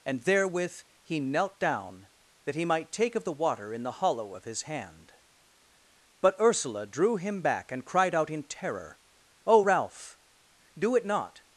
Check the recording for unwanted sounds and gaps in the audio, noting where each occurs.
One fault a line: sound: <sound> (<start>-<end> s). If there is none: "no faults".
no faults